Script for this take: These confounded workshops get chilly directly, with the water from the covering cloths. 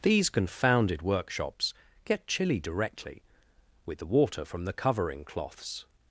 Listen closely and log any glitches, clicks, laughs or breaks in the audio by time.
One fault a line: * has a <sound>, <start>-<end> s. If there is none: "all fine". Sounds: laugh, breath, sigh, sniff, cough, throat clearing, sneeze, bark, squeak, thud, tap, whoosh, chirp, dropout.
all fine